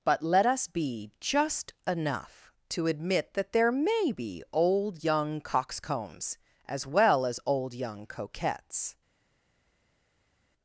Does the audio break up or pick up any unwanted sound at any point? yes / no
no